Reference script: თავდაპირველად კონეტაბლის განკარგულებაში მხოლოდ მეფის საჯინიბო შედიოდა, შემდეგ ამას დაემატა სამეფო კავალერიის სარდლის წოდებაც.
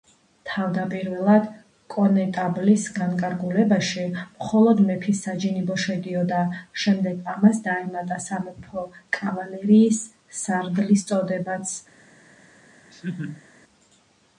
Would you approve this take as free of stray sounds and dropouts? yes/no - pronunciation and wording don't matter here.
no